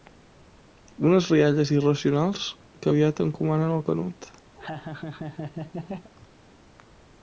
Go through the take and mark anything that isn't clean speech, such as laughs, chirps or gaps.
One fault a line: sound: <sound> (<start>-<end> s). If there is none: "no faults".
sound: laugh (4.6-6.1 s)